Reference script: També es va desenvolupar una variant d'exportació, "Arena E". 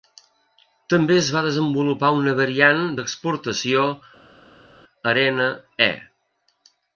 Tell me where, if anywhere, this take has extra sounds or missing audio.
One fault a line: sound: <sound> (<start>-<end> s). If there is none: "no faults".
no faults